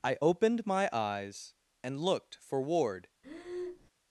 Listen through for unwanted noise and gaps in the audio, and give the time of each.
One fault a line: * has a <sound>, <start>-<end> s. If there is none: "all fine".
* has a breath, 3.2-3.9 s